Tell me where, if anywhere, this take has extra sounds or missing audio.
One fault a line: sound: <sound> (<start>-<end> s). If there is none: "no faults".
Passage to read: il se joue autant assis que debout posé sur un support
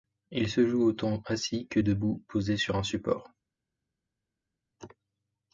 no faults